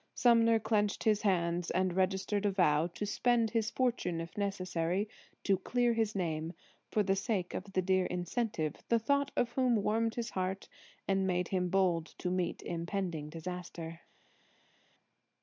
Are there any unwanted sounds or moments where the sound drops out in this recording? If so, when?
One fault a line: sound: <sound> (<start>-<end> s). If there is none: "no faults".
no faults